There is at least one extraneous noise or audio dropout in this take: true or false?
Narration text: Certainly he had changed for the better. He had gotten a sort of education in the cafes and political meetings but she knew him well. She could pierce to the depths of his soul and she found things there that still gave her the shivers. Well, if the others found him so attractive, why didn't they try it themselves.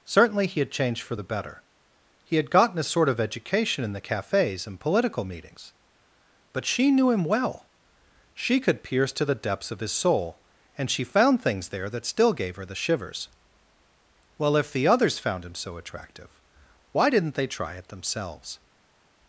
false